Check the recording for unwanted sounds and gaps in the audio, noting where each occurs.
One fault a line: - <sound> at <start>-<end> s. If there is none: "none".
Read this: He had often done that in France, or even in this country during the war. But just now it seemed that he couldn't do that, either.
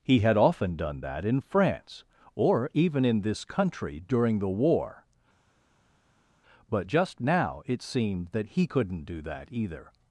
none